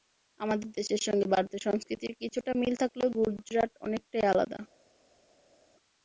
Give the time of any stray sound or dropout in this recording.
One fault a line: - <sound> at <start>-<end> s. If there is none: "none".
none